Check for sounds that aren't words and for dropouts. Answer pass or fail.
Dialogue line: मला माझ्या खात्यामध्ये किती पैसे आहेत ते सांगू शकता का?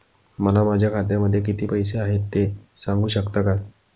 pass